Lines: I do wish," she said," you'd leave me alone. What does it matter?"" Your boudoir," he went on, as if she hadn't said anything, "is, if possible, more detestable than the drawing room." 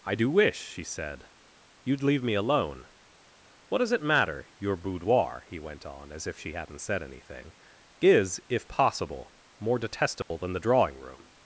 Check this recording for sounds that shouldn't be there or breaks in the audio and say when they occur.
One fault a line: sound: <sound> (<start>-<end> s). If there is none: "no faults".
sound: dropout (10.2-10.3 s)